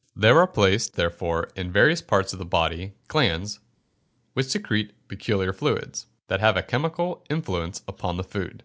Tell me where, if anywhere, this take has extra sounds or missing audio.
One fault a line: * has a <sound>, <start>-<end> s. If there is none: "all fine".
all fine